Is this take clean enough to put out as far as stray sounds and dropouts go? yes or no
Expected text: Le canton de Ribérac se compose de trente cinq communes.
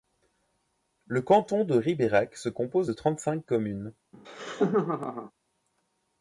no